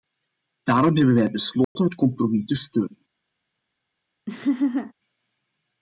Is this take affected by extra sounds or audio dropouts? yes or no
yes